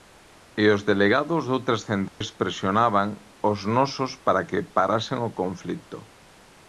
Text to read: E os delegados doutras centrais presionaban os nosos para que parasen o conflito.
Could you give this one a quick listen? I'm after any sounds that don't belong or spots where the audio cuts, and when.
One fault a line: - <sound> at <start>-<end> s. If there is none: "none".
- dropout at 2.1-2.2 s